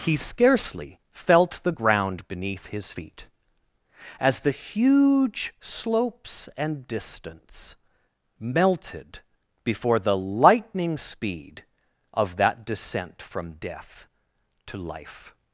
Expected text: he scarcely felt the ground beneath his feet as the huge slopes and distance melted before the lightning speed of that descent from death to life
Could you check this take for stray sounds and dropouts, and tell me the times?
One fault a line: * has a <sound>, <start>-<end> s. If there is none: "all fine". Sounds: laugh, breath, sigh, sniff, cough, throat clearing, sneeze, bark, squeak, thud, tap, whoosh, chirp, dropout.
all fine